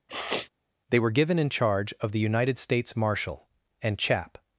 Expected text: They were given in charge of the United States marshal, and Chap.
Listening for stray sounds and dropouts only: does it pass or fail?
fail